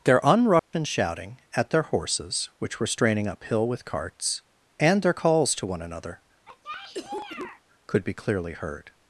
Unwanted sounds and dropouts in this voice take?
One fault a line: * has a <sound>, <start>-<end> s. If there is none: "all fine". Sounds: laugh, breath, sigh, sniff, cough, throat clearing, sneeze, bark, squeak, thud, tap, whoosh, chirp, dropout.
* has a dropout, 0.6-0.7 s
* has a cough, 6.5-7.6 s